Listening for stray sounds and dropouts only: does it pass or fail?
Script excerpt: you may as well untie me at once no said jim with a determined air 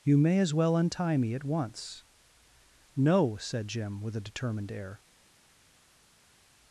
pass